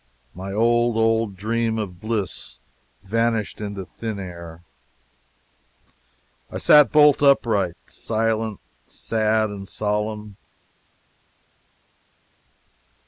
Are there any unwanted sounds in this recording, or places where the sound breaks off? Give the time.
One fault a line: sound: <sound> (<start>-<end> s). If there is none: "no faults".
no faults